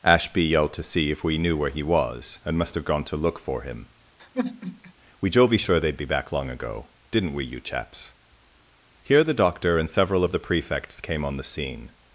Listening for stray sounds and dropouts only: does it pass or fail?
fail